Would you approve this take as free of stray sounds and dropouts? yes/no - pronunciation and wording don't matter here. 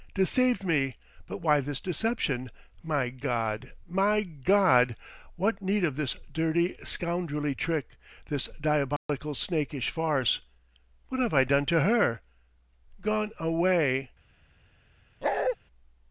no